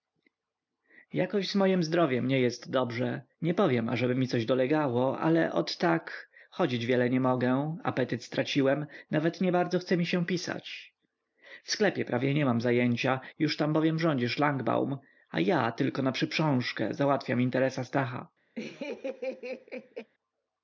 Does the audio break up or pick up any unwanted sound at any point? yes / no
yes